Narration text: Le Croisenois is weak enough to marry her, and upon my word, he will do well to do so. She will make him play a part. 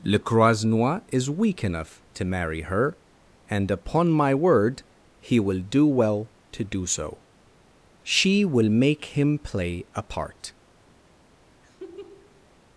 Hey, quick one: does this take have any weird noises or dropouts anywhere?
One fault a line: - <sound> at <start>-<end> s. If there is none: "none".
- laugh at 11.6-12.5 s